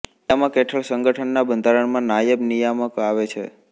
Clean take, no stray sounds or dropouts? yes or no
yes